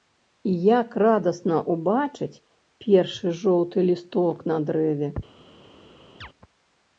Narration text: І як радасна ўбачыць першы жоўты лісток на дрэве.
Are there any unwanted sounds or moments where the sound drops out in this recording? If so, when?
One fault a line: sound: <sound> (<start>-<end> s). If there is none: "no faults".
sound: chirp (6.2-6.3 s)